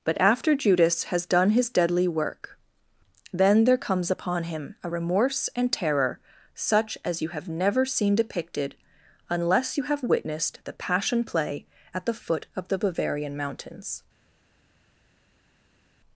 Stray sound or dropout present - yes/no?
no